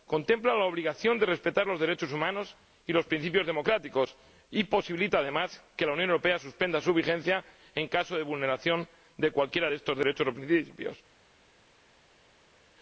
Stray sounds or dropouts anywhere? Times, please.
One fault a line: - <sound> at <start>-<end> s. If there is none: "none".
none